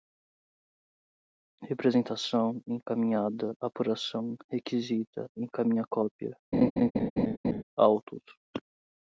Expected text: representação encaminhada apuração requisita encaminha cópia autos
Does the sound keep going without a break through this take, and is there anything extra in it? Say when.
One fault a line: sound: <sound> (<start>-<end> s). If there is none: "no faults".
sound: laugh (6.5-7.6 s)